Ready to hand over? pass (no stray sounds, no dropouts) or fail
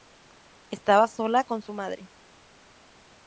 pass